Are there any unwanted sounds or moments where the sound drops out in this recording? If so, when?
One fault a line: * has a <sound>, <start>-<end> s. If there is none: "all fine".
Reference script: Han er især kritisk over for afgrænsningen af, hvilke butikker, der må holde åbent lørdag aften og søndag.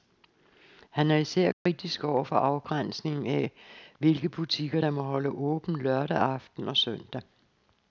* has a dropout, 1.5-1.7 s